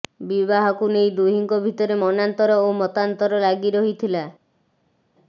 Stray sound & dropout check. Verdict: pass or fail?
pass